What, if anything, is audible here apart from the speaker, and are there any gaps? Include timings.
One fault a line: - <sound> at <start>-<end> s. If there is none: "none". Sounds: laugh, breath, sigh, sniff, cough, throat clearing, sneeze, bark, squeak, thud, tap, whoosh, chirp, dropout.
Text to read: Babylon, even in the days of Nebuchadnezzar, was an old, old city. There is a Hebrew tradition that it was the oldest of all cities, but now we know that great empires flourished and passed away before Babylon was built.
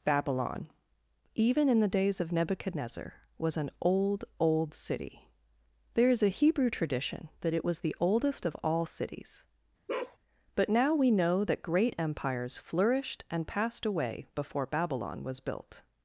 - bark at 9.9-10.2 s